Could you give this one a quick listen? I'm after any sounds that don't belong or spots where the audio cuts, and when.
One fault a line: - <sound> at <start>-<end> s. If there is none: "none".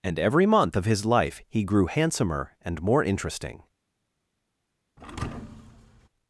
- thud at 5.0-6.1 s